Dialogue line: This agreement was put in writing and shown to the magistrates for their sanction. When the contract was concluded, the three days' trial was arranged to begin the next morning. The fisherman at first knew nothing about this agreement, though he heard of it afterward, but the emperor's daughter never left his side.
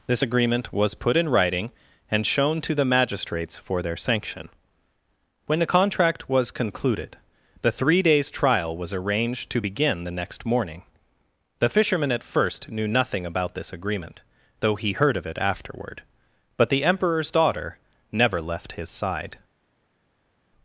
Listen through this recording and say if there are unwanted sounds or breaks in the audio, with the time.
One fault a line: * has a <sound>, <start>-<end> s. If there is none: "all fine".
all fine